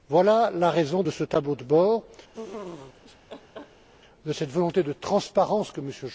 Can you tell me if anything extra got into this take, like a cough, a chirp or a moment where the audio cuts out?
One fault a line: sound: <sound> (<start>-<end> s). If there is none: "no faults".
sound: laugh (2.3-3.9 s)